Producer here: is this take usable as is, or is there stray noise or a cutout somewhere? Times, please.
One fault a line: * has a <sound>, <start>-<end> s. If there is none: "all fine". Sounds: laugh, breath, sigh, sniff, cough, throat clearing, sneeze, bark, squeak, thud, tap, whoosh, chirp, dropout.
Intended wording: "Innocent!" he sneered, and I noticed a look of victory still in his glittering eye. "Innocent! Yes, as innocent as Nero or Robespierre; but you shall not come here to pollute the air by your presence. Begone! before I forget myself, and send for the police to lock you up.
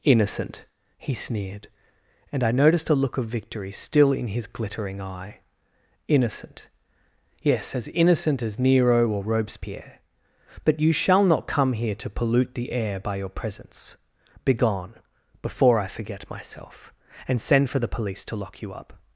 all fine